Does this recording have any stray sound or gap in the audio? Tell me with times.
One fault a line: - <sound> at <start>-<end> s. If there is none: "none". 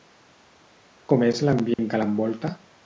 - dropout at 1.7-1.8 s